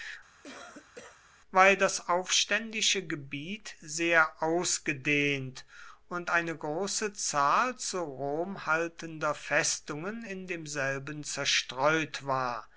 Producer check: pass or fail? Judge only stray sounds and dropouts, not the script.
fail